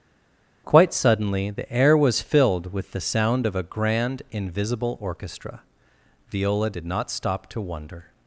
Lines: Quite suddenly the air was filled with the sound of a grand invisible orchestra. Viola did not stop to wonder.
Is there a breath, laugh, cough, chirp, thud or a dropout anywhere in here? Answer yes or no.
no